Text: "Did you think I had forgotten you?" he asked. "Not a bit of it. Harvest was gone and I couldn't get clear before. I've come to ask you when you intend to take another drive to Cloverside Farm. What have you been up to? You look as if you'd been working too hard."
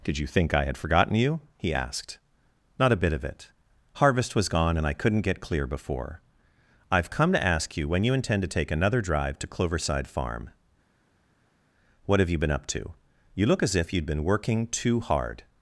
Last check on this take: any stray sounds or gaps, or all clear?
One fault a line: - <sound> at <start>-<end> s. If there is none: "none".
none